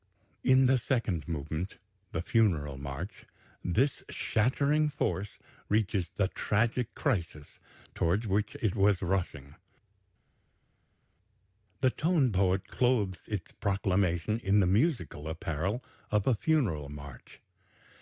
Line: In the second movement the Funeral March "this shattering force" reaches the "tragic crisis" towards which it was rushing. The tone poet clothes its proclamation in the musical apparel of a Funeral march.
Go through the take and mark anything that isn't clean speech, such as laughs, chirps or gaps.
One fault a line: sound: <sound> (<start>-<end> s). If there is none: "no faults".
no faults